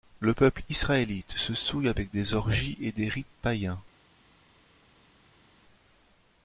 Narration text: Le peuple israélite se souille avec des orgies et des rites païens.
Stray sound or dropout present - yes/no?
no